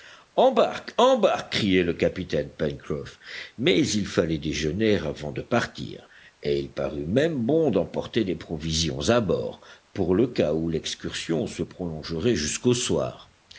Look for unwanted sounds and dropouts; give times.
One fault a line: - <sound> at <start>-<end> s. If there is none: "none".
none